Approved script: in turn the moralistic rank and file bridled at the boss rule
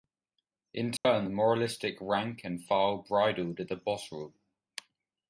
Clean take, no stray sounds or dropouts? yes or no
no